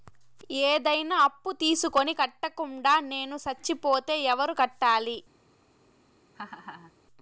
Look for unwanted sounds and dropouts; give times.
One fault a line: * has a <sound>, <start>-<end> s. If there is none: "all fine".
* has a laugh, 6.3-6.9 s